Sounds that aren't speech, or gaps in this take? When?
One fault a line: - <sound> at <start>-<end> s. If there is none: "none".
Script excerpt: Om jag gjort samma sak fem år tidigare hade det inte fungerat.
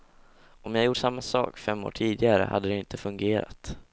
none